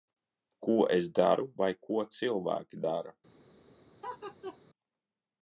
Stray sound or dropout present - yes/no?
yes